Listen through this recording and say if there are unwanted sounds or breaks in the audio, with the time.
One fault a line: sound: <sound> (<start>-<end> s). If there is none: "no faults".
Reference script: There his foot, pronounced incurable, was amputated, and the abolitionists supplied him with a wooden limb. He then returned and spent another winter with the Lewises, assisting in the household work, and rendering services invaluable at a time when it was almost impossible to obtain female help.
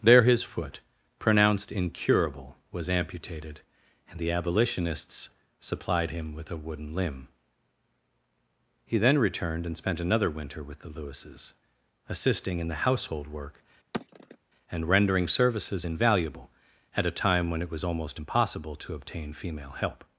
sound: sigh (13.9-14.4 s)